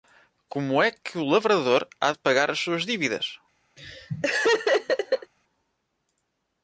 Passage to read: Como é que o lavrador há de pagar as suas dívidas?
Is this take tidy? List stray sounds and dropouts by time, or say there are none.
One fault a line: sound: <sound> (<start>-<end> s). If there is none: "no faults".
sound: laugh (3.8-5.3 s)